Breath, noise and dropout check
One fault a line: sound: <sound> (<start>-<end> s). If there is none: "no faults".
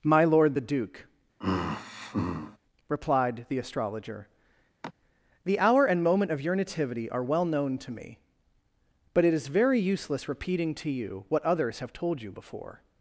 sound: sigh (1.4-2.6 s)
sound: sigh (4.8-4.9 s)